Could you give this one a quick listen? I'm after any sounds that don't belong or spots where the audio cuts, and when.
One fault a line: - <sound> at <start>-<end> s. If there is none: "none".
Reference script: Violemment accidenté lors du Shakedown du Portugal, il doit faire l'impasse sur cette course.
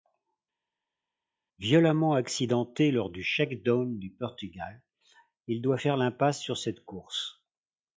none